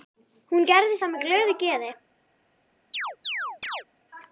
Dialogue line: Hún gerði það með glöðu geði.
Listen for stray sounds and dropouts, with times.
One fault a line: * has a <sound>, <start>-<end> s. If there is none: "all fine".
* has a chirp, 2.9-3.8 s